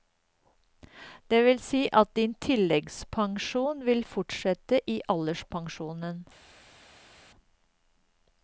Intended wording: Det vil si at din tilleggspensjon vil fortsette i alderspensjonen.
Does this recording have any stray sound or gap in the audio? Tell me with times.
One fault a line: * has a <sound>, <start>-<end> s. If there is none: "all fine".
all fine